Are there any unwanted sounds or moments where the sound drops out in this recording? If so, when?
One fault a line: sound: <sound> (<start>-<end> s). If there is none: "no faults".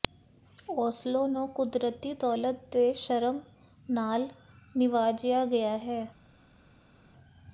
no faults